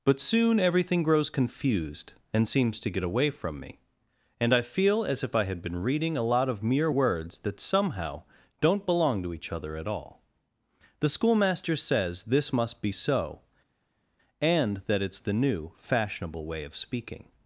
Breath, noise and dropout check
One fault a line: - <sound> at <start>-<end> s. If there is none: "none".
none